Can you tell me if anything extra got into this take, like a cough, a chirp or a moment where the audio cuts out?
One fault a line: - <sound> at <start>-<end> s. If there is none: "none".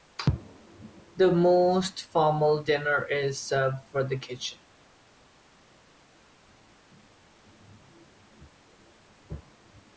none